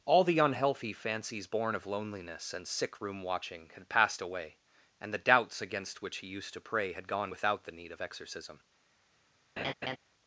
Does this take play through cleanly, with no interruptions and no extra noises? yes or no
no